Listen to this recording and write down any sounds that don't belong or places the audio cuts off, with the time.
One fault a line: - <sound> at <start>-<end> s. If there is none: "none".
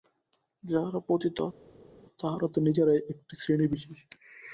none